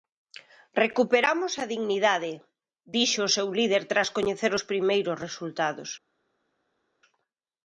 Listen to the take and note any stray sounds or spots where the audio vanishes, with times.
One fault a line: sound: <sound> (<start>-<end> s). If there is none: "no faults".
no faults